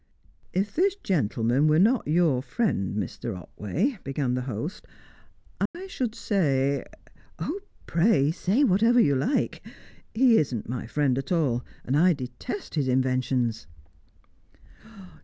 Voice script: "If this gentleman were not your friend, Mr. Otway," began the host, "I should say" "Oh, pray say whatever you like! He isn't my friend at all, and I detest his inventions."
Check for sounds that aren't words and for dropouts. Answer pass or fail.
fail